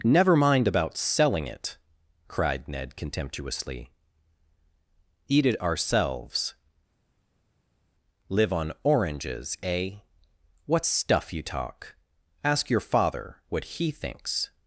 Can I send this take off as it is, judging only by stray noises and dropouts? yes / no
yes